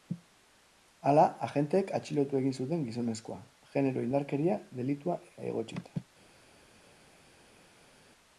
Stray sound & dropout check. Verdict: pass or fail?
pass